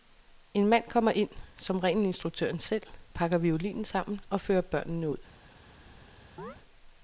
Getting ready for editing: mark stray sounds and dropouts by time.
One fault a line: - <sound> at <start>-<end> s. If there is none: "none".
- chirp at 6.4-6.6 s